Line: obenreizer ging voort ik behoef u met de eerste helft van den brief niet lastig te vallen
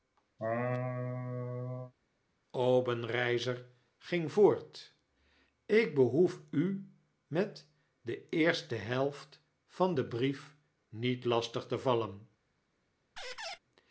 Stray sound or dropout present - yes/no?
yes